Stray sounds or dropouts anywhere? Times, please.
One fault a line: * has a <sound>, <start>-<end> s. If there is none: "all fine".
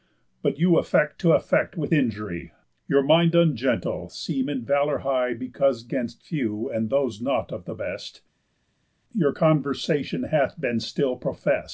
all fine